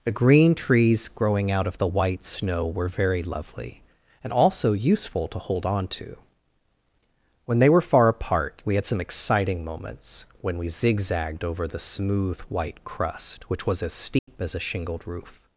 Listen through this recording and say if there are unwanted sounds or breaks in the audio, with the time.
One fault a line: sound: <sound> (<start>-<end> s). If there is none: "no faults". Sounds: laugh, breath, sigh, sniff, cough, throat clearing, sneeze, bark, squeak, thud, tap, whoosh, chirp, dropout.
sound: dropout (14.2-14.3 s)